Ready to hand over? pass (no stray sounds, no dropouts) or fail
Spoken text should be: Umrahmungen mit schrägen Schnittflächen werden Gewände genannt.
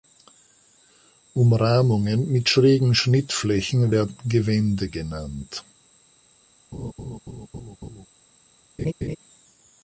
fail